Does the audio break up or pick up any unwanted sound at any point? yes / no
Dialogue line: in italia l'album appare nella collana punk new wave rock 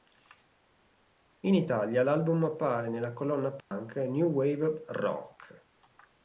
yes